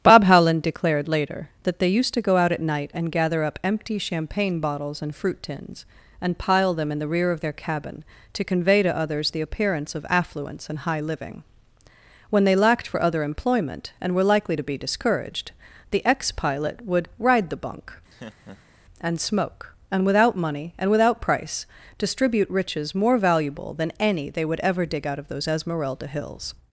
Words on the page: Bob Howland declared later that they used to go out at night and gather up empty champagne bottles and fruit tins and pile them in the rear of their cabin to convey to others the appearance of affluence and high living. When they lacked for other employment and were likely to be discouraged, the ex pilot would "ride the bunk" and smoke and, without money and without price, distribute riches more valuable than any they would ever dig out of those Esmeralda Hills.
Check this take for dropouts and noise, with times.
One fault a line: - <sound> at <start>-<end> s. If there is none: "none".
- laugh at 18.1-18.8 s